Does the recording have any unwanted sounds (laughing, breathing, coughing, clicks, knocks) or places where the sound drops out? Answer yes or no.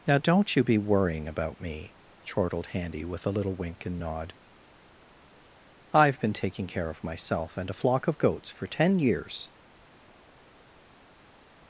no